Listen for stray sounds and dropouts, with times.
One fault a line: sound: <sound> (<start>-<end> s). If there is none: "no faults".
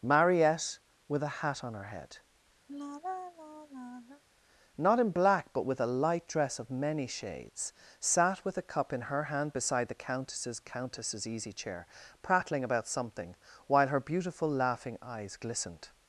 sound: sigh (2.7-4.2 s)